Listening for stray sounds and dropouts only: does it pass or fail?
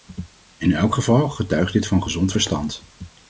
pass